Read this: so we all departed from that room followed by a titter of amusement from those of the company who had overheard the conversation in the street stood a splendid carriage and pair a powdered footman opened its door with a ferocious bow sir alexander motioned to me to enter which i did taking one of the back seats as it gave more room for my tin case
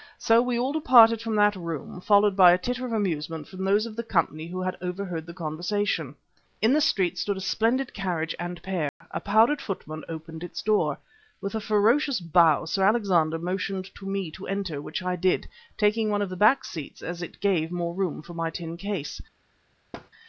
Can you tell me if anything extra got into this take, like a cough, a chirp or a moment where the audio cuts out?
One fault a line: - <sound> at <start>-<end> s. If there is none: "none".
- dropout at 8.9-9.0 s
- thud at 19.9-20.1 s